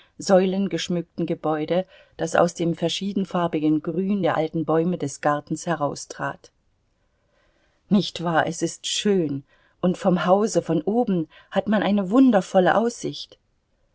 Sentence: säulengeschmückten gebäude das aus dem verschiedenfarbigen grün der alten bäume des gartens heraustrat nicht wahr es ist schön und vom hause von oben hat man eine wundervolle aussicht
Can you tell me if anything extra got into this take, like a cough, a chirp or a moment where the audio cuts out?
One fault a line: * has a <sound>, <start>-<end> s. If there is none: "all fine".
all fine